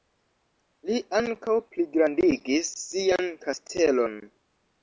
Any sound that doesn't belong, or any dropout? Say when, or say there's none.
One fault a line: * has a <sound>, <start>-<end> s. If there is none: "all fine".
all fine